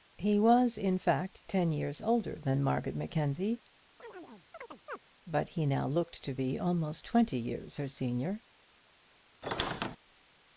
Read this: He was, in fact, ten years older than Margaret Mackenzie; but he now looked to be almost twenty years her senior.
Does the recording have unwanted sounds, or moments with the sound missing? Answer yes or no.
yes